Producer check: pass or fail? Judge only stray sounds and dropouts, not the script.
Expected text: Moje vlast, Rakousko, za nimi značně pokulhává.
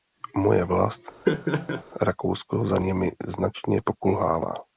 fail